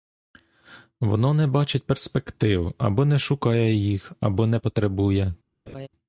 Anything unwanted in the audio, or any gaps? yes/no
yes